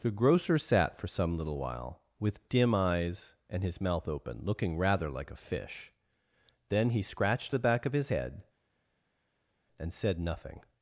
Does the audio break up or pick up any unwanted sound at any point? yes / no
no